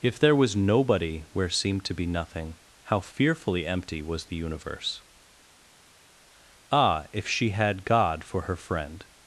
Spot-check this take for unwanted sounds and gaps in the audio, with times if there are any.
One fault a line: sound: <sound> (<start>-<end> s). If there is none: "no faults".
no faults